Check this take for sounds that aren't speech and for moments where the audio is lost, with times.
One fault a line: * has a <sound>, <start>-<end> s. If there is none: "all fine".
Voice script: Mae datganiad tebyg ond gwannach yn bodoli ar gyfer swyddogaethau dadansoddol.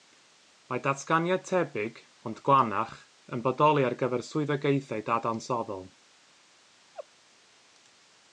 * has a laugh, 6.9-7.1 s